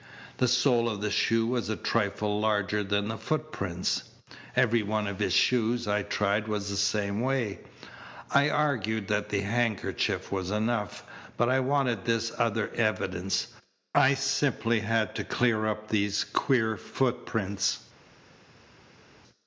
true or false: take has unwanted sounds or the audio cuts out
false